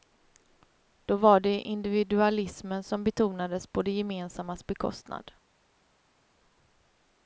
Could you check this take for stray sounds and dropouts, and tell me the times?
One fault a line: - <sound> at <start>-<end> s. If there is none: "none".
none